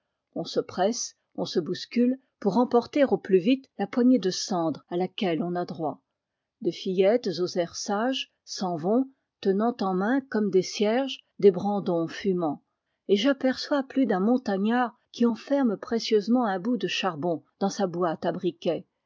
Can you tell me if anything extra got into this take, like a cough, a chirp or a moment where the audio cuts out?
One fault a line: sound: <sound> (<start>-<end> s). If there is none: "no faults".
no faults